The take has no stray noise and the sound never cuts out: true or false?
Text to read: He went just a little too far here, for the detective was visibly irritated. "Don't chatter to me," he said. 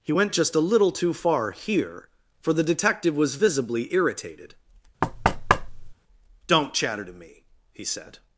false